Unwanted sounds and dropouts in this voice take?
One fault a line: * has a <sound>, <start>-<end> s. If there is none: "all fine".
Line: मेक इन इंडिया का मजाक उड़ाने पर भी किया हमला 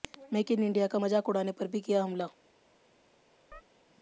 * has a chirp, 3.5-3.6 s